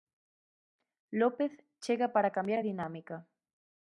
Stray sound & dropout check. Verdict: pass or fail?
pass